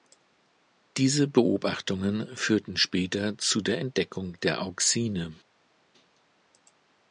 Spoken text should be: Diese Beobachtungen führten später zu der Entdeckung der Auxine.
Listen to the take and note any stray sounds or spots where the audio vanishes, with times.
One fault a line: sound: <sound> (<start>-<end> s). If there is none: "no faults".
no faults